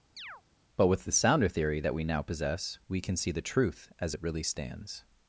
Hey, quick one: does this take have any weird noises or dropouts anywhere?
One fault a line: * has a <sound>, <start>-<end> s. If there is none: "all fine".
* has a chirp, 0.2-0.4 s